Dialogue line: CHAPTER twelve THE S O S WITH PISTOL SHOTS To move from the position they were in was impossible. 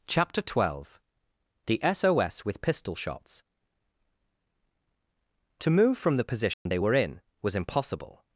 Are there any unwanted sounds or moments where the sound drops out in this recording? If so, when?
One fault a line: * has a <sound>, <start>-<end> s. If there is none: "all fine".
* has a dropout, 6.5-6.7 s